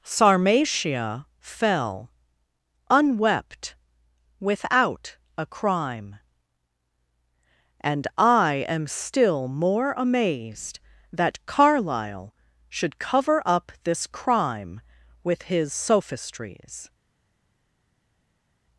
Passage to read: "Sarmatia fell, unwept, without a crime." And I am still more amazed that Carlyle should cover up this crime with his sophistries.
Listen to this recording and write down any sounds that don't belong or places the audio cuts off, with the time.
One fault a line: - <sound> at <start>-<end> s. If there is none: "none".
none